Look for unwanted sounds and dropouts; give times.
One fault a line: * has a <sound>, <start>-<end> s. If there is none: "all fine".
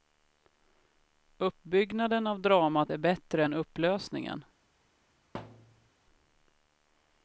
* has a thud, 5.3-5.9 s